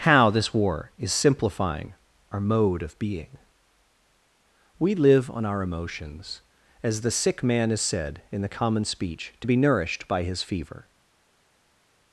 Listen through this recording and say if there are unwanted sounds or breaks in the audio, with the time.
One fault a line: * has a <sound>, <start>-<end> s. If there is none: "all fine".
all fine